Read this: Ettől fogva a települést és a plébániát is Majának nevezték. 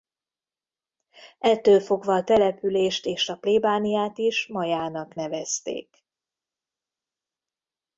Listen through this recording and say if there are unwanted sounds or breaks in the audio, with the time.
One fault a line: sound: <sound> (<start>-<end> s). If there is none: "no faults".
no faults